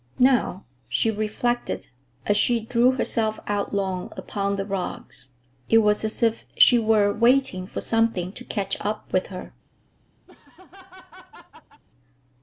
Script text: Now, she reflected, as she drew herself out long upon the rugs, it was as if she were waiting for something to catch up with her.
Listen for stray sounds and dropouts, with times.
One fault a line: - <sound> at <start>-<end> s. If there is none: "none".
- laugh at 10.3-11.8 s